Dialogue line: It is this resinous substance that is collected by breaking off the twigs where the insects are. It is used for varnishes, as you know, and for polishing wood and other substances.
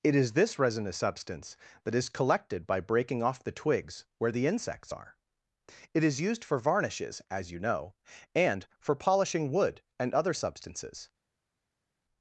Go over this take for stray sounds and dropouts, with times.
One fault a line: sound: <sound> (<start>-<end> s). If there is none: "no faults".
no faults